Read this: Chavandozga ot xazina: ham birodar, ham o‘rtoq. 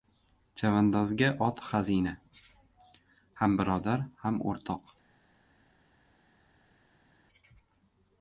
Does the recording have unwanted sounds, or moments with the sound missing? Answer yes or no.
no